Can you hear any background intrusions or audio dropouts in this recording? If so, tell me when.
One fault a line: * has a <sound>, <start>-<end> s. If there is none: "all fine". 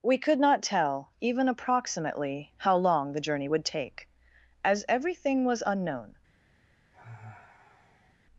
* has a sigh, 6.9-8.1 s